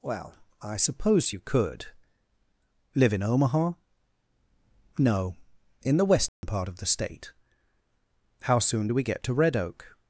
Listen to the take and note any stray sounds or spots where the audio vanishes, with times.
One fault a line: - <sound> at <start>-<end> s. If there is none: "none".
- dropout at 6.3-6.4 s